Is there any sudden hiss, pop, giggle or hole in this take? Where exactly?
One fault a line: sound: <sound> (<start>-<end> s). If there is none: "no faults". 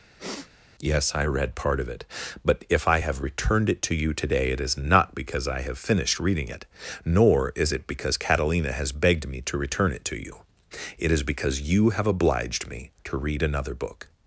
sound: sniff (0.2-0.5 s)